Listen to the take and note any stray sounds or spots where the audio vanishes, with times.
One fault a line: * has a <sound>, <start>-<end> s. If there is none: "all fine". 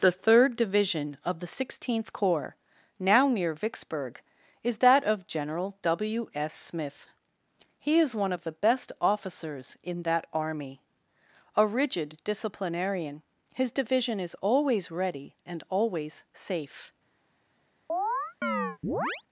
* has a chirp, 17.9-19.2 s